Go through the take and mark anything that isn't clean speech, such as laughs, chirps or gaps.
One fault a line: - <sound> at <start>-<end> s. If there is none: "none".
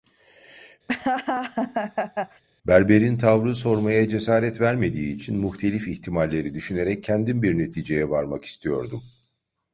- laugh at 0.9-2.4 s